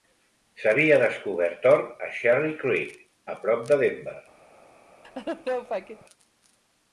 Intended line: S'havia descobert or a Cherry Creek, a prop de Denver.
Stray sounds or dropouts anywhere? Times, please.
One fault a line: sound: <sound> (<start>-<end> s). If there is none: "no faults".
sound: laugh (5.0-6.1 s)